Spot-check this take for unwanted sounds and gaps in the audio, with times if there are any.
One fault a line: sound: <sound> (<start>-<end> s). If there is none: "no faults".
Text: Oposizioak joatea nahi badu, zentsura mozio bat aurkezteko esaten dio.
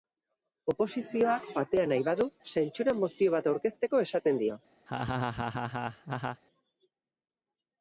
sound: laugh (4.9-6.4 s)